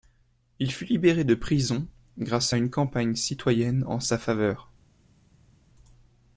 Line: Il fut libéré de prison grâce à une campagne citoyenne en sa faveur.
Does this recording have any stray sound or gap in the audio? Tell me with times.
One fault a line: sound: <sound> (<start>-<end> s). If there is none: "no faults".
no faults